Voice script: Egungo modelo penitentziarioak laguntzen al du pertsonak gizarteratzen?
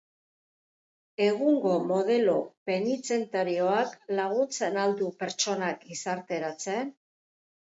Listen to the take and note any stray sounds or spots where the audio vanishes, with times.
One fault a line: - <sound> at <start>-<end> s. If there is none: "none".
none